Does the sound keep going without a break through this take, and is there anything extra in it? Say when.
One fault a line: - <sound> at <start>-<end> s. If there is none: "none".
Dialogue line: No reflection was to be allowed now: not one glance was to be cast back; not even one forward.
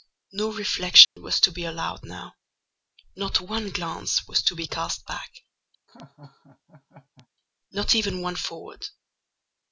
- dropout at 1.0-1.2 s
- laugh at 5.9-7.3 s